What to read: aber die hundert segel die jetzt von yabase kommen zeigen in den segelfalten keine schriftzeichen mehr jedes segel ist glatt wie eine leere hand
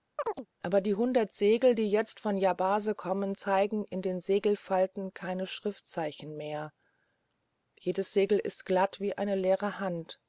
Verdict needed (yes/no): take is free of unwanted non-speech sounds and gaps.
no